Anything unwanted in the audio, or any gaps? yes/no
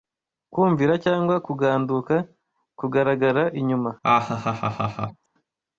yes